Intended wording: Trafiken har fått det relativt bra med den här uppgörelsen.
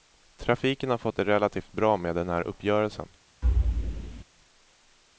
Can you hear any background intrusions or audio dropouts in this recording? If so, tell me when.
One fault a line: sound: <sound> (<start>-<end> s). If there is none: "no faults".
sound: thud (3.4-4.2 s)